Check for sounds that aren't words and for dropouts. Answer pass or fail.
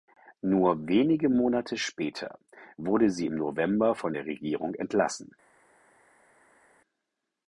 pass